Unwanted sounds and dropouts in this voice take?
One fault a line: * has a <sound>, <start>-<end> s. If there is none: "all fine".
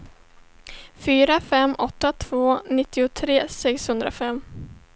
all fine